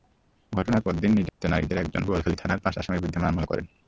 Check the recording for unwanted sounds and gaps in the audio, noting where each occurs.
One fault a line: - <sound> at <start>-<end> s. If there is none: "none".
- dropout at 1.3-1.4 s